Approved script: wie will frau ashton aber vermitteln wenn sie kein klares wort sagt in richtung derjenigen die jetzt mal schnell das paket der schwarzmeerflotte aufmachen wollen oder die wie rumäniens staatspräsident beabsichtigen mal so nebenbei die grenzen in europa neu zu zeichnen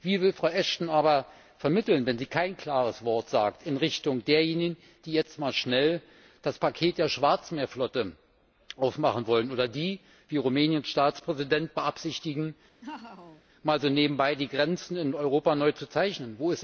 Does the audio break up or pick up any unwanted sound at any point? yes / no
yes